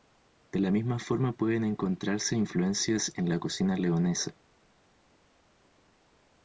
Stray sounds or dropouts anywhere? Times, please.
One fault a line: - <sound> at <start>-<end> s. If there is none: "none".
none